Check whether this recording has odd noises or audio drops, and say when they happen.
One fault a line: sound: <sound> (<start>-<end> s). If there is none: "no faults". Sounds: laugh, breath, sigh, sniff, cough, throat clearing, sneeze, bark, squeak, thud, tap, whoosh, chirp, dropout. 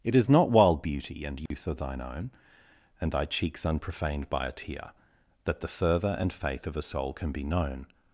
sound: dropout (1.5-1.5 s)